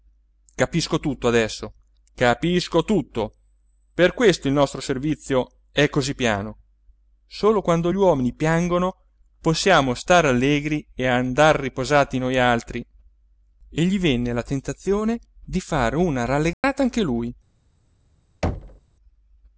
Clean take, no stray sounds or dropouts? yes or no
no